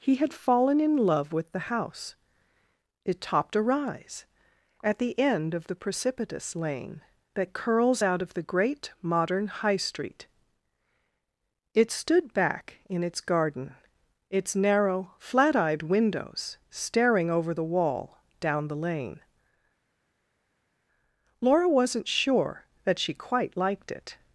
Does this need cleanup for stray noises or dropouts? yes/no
no